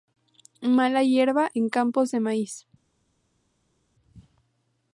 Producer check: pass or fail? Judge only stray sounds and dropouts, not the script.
pass